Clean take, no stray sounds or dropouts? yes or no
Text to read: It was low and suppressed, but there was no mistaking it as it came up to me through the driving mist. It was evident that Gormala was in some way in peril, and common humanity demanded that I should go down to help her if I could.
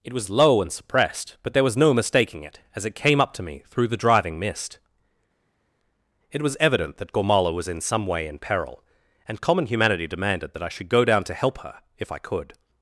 yes